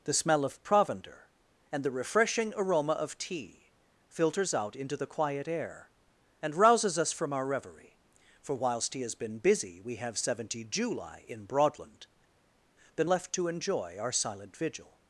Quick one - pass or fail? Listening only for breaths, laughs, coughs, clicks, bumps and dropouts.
pass